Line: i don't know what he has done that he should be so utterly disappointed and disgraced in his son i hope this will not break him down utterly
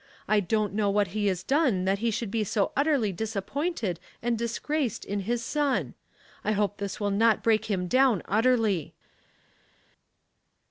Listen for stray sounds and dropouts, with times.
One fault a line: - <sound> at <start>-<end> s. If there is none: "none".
none